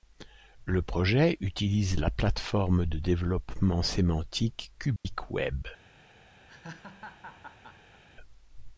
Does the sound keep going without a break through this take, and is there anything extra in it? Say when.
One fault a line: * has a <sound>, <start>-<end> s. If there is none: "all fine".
* has a dropout, 5.0-5.0 s
* has a laugh, 6.5-8.0 s